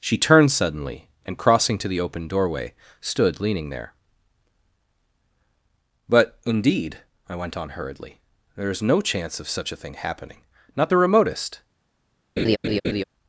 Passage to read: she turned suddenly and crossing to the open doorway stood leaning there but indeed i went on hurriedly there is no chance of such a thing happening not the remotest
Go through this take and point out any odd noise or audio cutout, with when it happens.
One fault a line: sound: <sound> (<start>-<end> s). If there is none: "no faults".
sound: laugh (12.4-13.0 s)